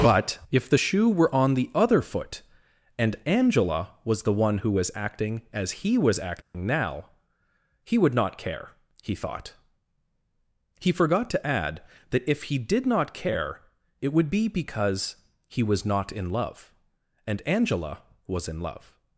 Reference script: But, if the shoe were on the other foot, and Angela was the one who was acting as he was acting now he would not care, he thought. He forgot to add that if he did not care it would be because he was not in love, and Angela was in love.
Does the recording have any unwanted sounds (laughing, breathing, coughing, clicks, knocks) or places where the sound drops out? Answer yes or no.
yes